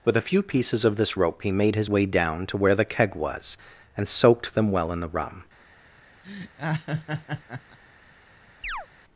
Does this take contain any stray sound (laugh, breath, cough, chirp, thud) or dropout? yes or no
yes